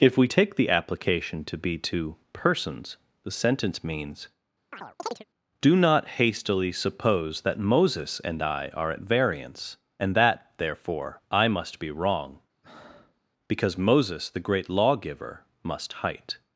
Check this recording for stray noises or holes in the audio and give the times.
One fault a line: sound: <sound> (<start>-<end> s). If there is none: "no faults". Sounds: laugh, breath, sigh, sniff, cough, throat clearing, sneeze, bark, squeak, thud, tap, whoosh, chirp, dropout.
sound: chirp (4.7-5.2 s)
sound: breath (12.6-13.2 s)